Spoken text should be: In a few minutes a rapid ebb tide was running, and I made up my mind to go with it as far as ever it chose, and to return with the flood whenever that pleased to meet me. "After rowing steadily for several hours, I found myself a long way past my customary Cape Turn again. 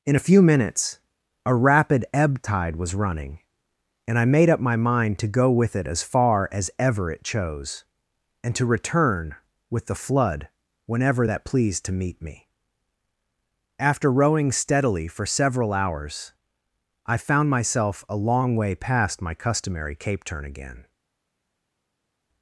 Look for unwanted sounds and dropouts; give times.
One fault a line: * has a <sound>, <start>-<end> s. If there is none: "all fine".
all fine